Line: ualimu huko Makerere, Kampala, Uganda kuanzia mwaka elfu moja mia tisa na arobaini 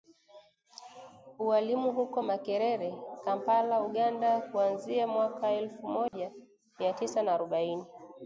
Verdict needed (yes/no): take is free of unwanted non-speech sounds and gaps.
no